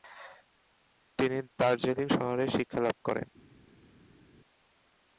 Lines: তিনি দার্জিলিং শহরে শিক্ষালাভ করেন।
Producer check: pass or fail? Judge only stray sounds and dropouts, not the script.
pass